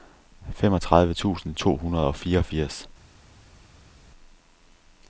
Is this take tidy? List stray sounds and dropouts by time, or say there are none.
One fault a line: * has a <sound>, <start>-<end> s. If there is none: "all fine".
all fine